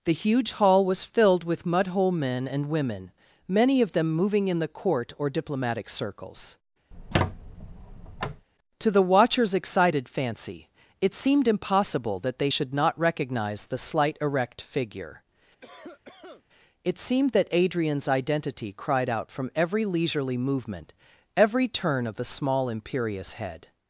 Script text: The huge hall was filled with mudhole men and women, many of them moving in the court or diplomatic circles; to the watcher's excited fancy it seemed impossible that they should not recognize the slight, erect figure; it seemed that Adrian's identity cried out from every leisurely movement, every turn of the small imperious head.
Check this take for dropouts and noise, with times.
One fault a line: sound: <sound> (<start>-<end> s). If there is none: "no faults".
sound: squeak (6.9-8.5 s)
sound: cough (15.6-16.4 s)